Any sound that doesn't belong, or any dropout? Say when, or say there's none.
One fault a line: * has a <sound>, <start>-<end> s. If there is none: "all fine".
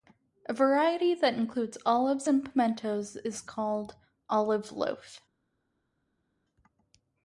all fine